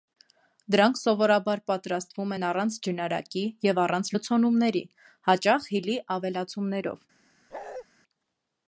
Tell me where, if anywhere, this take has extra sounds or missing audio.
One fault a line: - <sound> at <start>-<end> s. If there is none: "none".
- bark at 7.5-7.8 s